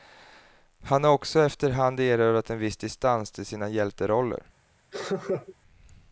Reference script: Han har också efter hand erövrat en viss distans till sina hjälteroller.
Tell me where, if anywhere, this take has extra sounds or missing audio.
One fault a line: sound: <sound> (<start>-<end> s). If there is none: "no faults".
sound: laugh (4.9-5.6 s)